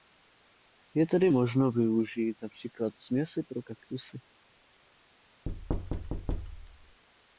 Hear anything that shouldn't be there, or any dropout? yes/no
yes